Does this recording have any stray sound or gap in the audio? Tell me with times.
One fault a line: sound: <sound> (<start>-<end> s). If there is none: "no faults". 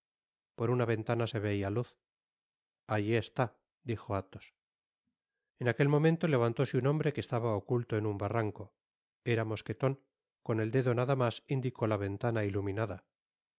no faults